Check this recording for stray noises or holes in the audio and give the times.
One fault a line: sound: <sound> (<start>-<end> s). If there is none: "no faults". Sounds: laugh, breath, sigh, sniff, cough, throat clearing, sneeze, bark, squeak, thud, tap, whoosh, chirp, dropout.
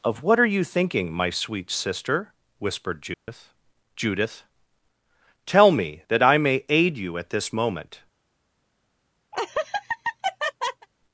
sound: dropout (3.1-3.3 s)
sound: laugh (9.3-10.9 s)